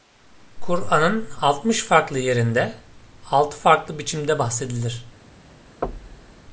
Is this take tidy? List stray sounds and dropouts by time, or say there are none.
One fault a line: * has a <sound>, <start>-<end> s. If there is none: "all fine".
* has a thud, 5.8-6.4 s